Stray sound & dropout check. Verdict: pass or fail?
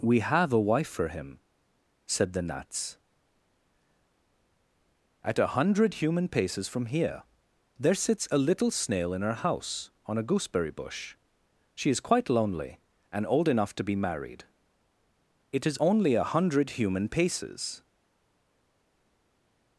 pass